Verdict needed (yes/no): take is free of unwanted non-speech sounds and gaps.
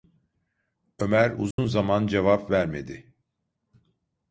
no